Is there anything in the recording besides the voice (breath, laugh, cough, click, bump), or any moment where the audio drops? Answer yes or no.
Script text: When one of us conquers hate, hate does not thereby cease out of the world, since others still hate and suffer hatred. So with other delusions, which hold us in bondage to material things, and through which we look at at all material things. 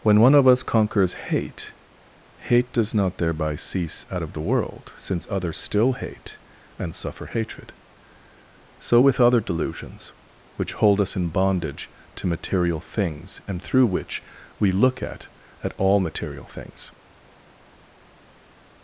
no